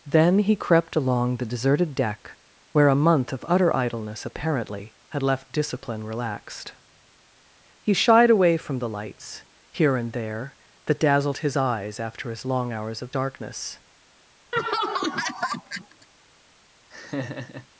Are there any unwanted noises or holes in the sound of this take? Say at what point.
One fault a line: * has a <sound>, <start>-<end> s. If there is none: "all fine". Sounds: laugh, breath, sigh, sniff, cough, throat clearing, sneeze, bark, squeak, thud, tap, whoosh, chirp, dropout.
* has a laugh, 14.5-16.1 s
* has a laugh, 16.9-17.7 s